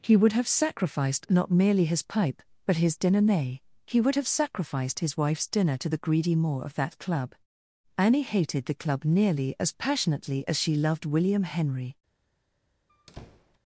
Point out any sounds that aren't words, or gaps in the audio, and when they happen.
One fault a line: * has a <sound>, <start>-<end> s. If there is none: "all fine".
* has a squeak, 12.9-13.6 s